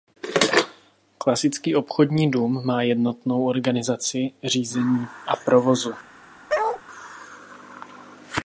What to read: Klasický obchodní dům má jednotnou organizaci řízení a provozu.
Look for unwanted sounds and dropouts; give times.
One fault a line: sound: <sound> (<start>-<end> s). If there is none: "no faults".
sound: bark (6.5-6.8 s)